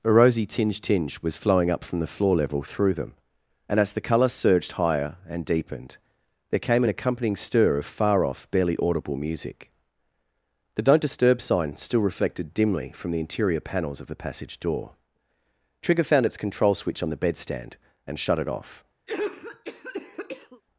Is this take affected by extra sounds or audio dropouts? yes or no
yes